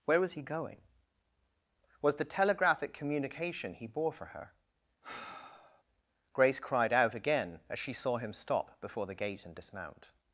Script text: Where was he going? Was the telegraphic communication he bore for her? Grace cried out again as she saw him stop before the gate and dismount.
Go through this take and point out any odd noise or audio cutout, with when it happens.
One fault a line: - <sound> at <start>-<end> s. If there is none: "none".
- sigh at 5.0-5.8 s